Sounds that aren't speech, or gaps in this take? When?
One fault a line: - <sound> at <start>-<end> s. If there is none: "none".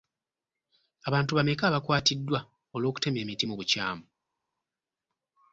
none